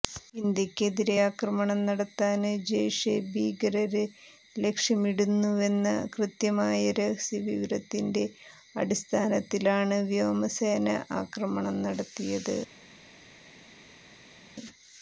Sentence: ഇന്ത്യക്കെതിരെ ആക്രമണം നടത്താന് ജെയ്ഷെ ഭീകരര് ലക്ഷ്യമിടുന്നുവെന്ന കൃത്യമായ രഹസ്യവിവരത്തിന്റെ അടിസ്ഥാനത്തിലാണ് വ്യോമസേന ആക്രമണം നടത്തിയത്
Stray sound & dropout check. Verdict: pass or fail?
pass